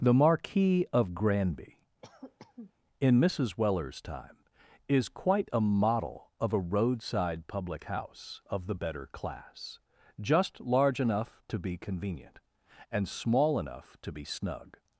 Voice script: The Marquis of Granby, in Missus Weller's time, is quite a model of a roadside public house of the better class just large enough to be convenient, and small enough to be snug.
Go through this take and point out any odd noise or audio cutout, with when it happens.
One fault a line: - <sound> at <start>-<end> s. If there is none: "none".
- cough at 2.0-2.7 s